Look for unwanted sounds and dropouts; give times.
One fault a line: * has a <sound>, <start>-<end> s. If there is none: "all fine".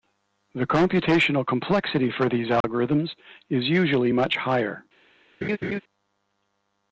* has a dropout, 2.6-2.6 s
* has a laugh, 5.4-5.8 s